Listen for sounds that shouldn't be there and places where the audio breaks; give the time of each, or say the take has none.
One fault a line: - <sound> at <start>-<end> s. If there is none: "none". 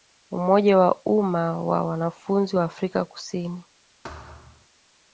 - thud at 4.0-4.7 s